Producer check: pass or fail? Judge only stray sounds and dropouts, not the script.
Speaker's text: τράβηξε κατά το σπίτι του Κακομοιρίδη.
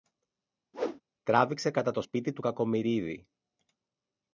fail